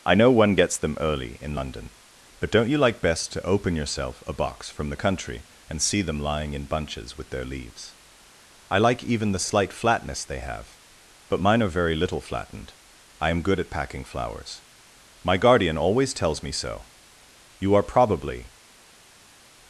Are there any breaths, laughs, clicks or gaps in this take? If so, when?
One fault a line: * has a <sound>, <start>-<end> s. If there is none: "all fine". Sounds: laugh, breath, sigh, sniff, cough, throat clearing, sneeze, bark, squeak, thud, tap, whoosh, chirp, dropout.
all fine